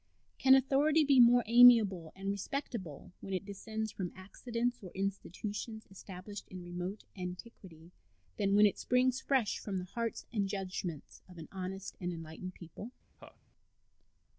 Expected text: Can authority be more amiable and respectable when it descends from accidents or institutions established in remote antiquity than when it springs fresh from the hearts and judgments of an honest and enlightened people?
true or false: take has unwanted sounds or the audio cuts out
true